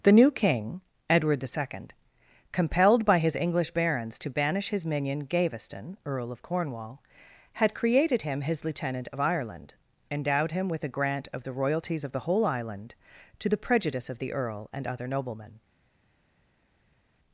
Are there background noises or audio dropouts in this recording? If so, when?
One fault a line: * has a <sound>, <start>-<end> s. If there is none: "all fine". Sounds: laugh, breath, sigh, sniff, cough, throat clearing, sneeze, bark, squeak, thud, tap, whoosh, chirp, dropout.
all fine